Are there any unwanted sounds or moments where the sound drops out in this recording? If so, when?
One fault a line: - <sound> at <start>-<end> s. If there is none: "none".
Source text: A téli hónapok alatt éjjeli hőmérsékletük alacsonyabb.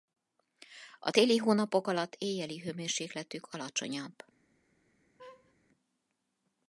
- laugh at 5.2-5.5 s